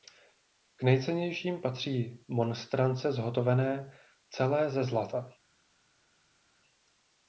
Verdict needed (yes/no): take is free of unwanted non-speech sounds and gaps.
yes